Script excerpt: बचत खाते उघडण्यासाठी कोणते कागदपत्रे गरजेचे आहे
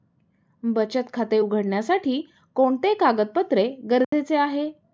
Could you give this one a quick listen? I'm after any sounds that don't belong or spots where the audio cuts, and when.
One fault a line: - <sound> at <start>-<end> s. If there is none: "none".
- dropout at 4.0-4.1 s